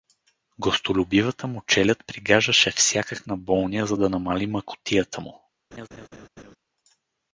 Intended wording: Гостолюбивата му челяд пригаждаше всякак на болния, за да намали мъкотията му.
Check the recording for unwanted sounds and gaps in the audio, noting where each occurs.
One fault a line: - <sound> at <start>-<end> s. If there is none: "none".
- laugh at 5.7-6.6 s